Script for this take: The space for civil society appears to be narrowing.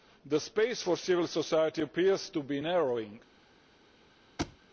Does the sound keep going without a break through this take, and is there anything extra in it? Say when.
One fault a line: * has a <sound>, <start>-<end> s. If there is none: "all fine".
* has a thud, 4.4-4.6 s